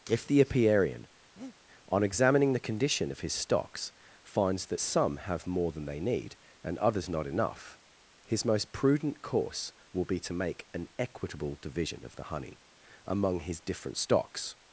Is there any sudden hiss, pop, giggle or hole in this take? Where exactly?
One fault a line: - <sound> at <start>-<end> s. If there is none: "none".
- breath at 1.4-1.6 s